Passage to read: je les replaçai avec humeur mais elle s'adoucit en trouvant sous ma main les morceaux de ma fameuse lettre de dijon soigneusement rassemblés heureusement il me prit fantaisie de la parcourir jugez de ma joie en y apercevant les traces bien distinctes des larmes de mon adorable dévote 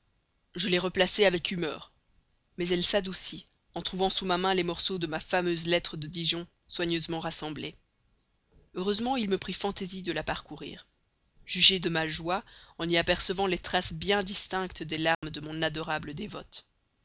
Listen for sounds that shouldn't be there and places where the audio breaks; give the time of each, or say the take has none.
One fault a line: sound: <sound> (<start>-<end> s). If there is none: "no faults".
sound: dropout (15.1-15.2 s)